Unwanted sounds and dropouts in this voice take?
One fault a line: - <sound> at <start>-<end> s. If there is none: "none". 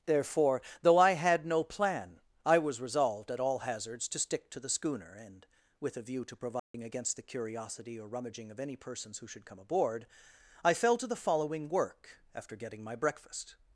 - dropout at 6.6-6.7 s